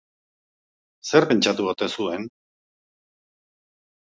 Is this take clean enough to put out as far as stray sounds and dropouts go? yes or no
yes